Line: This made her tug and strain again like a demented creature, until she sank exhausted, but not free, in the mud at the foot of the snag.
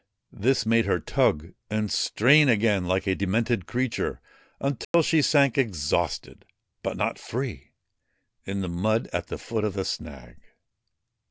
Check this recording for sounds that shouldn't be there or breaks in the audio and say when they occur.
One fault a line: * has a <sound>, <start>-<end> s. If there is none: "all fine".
* has a dropout, 4.8-4.9 s